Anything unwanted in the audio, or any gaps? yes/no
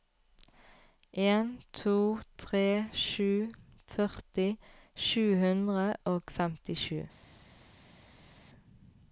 no